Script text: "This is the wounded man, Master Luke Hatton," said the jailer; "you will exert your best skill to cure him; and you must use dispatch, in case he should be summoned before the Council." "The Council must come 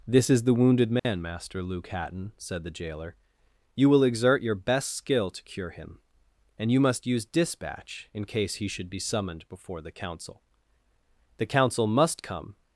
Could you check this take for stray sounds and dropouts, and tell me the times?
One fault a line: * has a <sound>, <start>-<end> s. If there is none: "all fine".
* has a dropout, 1.0-1.0 s